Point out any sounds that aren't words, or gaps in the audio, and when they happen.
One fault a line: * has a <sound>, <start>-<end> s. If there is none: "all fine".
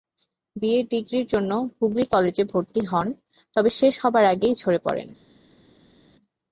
all fine